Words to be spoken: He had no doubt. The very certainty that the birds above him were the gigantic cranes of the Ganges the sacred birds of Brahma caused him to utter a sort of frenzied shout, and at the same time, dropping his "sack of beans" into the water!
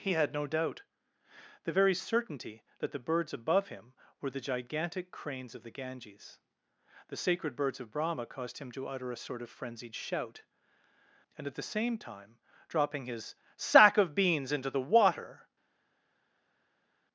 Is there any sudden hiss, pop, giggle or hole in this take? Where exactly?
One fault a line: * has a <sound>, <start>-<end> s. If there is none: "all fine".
all fine